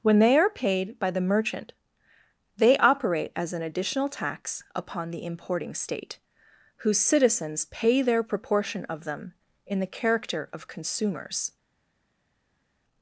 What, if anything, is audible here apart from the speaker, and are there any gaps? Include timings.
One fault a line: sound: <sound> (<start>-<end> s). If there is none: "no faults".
no faults